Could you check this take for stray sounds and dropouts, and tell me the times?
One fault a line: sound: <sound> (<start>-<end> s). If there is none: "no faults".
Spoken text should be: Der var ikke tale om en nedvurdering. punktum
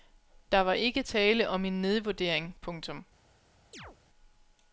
sound: chirp (3.7-4.0 s)